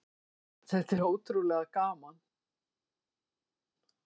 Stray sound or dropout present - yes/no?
no